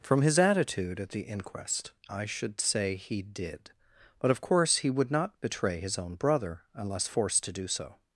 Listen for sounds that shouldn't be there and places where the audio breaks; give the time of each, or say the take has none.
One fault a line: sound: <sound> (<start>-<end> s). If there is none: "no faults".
no faults